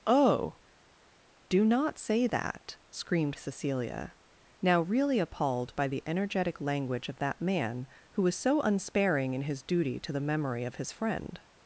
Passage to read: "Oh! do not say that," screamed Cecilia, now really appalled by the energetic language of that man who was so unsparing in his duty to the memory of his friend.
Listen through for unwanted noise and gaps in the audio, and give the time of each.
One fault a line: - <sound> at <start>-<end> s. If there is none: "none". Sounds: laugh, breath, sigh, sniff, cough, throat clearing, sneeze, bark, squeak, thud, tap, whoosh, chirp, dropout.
none